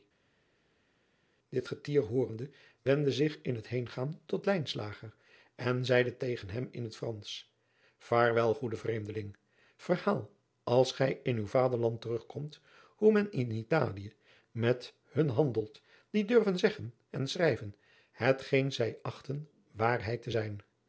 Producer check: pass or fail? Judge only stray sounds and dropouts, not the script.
pass